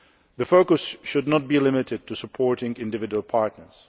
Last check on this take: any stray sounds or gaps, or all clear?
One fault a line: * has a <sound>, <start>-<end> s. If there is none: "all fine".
all fine